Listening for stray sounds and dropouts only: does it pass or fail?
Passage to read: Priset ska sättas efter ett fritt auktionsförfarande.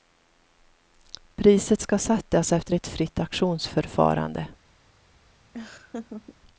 fail